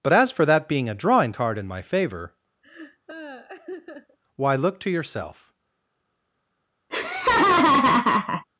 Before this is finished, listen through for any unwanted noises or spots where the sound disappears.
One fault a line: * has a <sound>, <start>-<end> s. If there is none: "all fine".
* has a laugh, 2.6-4.2 s
* has a laugh, 6.9-8.4 s